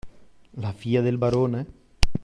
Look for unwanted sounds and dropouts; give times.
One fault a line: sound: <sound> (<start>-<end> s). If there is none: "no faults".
no faults